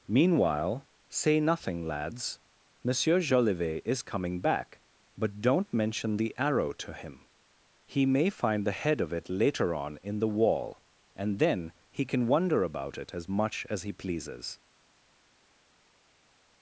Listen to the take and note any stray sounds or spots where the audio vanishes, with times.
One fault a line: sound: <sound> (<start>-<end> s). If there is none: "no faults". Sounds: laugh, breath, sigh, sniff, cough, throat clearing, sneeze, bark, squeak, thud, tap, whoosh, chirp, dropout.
no faults